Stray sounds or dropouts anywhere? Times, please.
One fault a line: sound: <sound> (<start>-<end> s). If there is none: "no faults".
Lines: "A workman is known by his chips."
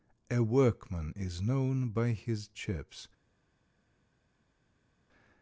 no faults